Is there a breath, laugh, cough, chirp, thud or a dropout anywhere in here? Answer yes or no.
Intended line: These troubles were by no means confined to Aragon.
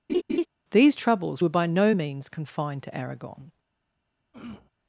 yes